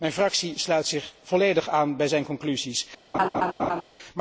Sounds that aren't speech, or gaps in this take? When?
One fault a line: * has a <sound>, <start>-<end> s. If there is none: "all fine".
* has a laugh, 3.1-3.8 s